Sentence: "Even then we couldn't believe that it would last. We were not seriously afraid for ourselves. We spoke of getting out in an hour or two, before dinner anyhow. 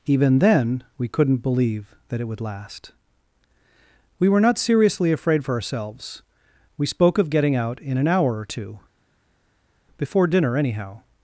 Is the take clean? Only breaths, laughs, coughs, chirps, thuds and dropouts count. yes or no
yes